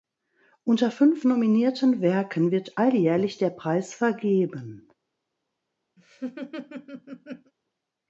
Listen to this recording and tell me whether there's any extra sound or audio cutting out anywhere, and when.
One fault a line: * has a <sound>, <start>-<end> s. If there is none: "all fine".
* has a laugh, 6.0-7.5 s